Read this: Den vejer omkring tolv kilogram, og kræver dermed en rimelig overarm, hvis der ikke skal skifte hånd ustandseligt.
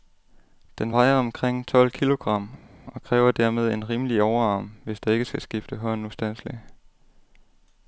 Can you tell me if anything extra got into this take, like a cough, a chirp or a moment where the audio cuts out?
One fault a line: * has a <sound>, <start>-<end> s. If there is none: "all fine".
all fine